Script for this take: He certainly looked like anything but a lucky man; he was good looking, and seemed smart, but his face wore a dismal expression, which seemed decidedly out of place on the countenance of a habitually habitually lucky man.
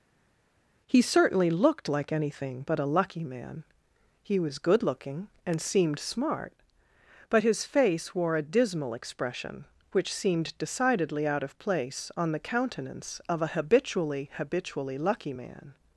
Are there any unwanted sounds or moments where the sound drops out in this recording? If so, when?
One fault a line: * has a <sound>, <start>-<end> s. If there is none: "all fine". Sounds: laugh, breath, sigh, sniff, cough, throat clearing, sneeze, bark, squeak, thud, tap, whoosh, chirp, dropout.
all fine